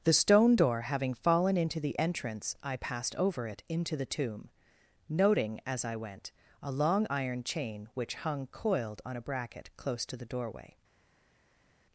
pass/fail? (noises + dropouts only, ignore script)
pass